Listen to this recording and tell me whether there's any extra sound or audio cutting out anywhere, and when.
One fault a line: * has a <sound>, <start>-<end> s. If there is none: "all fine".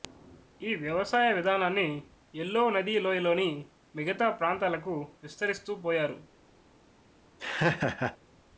* has a laugh, 7.4-8.2 s